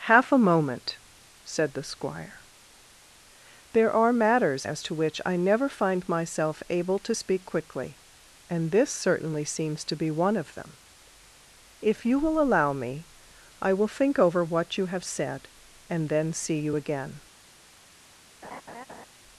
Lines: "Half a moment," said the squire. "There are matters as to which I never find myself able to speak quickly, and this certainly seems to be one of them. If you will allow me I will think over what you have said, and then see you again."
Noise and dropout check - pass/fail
fail